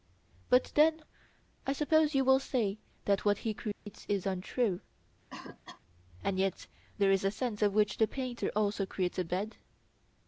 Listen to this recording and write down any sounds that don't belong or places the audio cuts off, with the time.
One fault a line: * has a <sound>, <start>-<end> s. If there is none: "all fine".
* has a dropout, 3.7-3.9 s
* has a cough, 5.3-5.8 s